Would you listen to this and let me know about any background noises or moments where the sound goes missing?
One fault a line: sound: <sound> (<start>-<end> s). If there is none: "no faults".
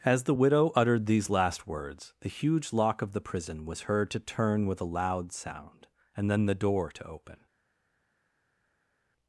no faults